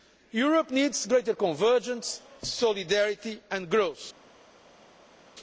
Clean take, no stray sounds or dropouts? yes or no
yes